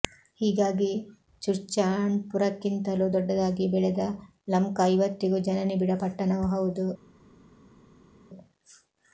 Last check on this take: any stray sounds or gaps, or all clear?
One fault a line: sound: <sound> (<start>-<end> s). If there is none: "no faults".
no faults